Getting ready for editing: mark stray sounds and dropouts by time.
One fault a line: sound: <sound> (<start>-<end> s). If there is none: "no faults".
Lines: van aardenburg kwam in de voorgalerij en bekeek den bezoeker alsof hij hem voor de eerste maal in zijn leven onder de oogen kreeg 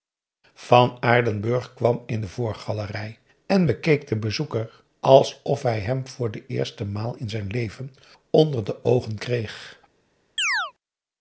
sound: chirp (10.4-10.7 s)